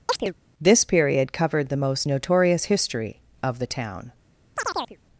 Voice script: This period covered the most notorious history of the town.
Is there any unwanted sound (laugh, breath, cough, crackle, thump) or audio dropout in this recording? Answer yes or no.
yes